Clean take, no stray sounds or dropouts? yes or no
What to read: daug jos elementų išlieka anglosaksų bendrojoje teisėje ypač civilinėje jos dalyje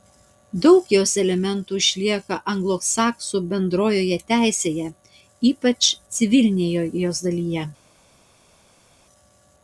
yes